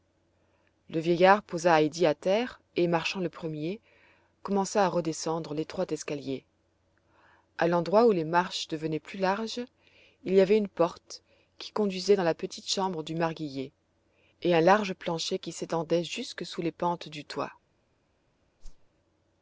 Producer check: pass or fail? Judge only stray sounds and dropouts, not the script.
fail